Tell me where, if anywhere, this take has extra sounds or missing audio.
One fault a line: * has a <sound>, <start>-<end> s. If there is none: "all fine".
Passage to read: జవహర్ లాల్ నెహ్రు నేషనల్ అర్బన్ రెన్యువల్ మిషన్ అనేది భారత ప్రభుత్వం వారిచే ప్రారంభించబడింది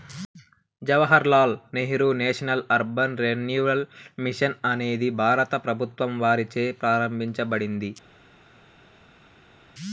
all fine